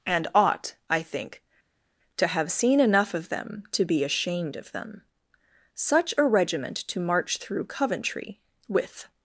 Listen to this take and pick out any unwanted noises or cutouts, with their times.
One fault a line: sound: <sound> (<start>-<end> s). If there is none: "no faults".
no faults